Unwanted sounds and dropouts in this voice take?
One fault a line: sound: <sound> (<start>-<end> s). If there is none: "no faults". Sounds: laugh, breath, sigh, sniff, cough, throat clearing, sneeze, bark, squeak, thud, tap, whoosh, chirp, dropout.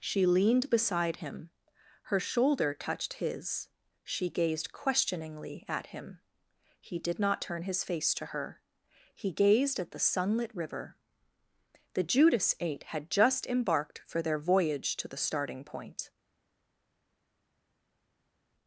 no faults